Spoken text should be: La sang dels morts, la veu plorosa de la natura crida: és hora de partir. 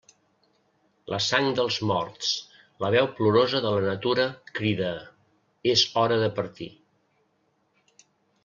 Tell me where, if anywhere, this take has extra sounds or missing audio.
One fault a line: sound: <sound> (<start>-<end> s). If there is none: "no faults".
no faults